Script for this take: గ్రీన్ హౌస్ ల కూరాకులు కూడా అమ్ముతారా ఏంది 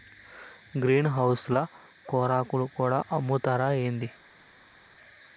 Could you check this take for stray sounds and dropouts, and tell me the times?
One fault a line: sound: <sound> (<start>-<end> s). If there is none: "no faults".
no faults